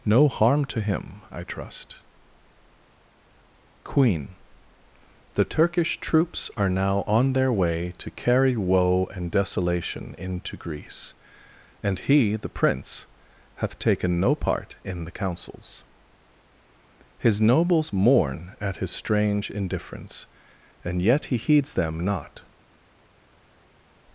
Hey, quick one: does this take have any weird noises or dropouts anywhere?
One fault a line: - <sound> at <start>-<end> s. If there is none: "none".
none